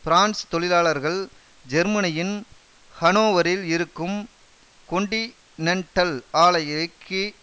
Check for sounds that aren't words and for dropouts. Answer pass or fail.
pass